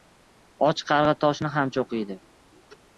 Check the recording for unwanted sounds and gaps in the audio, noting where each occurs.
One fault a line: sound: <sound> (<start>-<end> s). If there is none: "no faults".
no faults